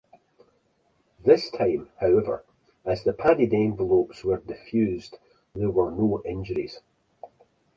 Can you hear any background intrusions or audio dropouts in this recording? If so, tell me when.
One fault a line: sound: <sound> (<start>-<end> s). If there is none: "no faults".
no faults